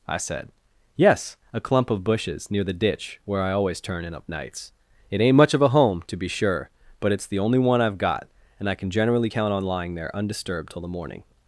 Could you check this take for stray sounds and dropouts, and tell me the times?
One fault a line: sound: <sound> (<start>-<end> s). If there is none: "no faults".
no faults